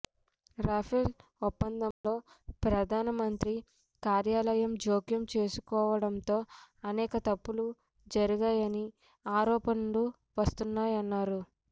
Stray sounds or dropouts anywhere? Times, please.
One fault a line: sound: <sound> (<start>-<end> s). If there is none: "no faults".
sound: dropout (1.9-2.0 s)